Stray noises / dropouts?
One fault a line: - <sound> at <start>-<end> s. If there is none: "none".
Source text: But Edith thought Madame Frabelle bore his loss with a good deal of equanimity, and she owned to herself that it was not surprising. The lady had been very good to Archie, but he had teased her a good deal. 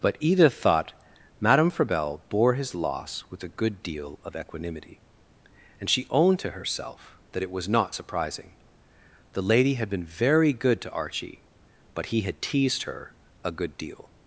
none